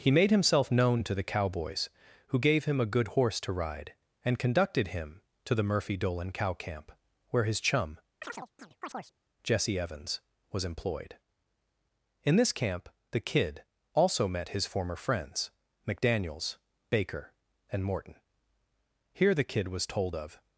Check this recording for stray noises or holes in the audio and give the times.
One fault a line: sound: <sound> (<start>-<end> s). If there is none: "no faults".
sound: chirp (8.2-9.1 s)